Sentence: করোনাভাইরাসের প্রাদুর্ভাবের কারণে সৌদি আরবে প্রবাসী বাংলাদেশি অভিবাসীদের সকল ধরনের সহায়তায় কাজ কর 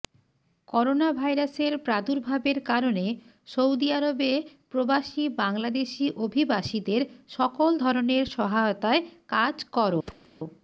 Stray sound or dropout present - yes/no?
yes